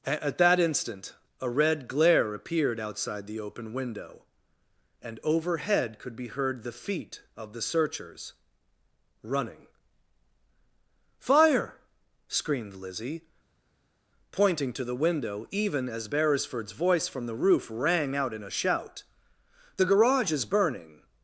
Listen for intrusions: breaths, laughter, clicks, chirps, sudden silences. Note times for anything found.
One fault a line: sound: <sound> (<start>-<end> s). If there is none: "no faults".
no faults